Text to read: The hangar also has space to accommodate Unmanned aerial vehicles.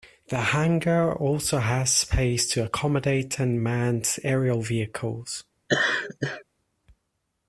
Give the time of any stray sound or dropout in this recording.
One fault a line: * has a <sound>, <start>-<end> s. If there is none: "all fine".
* has a laugh, 5.7-6.4 s